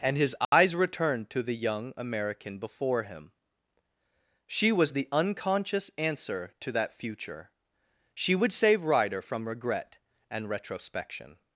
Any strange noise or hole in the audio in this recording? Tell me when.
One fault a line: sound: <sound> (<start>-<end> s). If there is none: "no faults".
sound: dropout (0.4-0.5 s)